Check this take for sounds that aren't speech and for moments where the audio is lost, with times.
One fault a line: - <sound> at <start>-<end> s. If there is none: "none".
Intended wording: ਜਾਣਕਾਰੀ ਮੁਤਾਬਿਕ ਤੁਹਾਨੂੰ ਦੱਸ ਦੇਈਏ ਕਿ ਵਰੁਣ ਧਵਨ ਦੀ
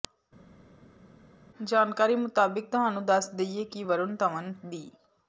none